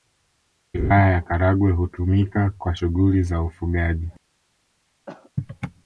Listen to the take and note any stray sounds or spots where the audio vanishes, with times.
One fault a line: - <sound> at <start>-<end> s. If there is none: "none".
- cough at 5.1-5.3 s